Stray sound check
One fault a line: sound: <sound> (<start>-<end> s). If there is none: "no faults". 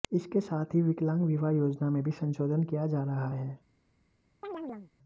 sound: chirp (4.4-4.9 s)